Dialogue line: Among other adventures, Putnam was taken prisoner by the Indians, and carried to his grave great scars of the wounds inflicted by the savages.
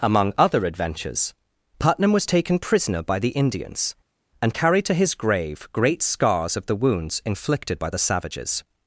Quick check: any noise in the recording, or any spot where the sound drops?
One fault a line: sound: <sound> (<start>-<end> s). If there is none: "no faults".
no faults